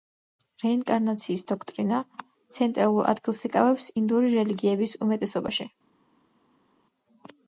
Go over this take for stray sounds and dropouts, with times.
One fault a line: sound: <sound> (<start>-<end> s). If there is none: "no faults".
no faults